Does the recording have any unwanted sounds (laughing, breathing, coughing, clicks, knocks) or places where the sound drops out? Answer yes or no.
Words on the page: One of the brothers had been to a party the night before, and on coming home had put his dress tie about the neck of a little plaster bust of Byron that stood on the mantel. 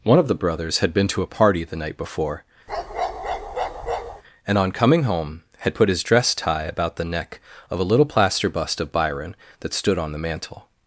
yes